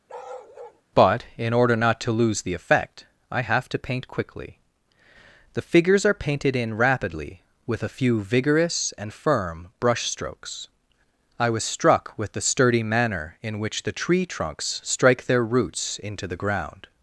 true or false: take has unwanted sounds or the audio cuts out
true